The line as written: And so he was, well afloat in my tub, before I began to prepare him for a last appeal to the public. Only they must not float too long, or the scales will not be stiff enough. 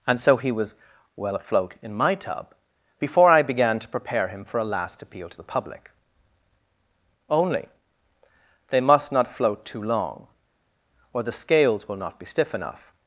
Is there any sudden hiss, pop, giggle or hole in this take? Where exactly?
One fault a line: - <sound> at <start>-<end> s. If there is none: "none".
none